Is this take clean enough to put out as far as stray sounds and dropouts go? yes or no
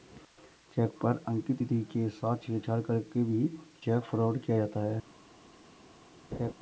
no